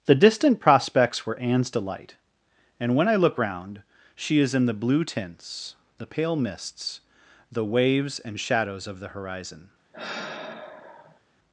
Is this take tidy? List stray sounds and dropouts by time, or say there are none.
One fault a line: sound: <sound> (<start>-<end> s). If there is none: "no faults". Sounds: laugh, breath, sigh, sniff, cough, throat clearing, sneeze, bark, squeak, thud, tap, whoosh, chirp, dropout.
sound: sigh (9.9-11.2 s)